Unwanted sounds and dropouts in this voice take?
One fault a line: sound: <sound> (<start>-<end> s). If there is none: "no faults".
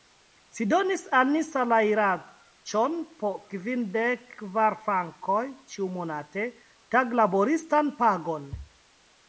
no faults